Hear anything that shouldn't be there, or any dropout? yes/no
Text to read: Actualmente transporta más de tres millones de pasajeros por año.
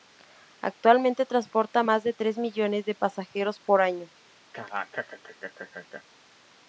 yes